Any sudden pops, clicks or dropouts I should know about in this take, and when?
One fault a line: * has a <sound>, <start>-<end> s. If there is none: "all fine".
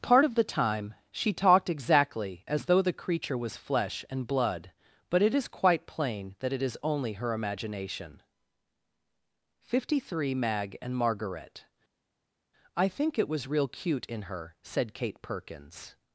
all fine